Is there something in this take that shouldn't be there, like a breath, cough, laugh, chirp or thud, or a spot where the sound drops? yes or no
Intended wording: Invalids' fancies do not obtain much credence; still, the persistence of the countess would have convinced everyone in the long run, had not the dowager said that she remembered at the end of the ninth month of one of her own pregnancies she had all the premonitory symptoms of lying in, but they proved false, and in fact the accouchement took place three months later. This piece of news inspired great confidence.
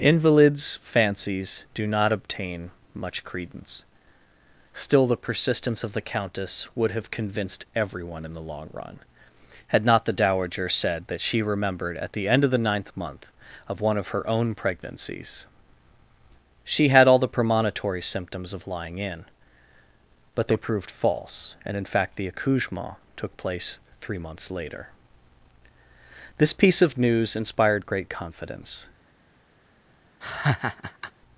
yes